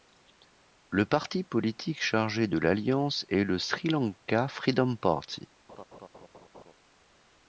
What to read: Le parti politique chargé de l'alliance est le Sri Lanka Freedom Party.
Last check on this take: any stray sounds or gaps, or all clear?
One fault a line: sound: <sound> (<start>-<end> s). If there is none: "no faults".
sound: laugh (5.7-6.7 s)